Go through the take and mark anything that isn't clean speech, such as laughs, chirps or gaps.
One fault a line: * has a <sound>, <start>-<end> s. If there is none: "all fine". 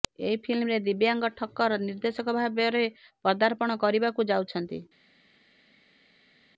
all fine